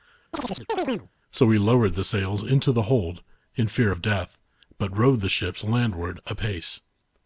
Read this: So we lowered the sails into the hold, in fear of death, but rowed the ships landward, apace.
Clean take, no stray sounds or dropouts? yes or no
no